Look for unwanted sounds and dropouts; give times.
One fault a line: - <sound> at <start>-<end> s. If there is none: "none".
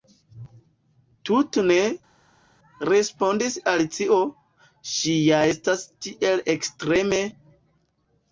none